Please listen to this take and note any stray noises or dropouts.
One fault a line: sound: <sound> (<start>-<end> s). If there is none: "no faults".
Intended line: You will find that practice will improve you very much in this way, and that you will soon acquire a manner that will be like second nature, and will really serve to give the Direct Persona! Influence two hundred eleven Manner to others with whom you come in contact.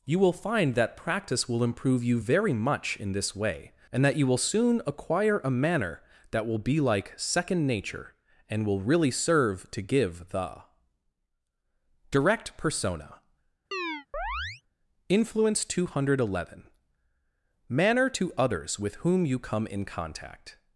sound: chirp (13.7-14.6 s)